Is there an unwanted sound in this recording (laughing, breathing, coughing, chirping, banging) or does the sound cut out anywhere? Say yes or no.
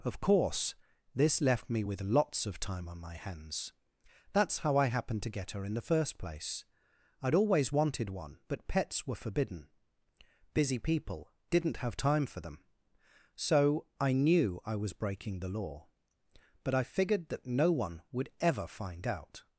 no